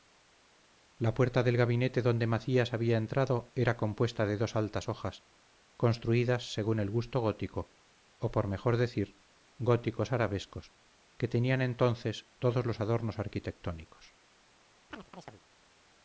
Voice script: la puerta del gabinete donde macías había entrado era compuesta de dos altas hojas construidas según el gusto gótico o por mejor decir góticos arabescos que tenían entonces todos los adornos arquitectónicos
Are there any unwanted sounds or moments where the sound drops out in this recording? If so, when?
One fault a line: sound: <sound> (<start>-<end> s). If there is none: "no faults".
sound: chirp (14.9-15.4 s)